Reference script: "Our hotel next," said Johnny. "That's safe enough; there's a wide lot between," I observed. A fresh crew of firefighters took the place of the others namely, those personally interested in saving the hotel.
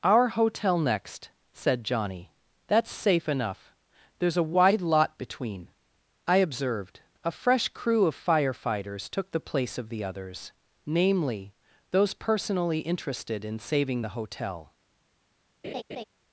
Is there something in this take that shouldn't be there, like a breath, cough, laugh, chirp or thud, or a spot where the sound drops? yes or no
yes